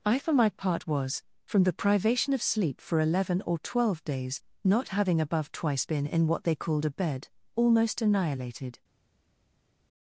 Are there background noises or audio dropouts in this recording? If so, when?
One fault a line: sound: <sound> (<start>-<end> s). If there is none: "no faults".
no faults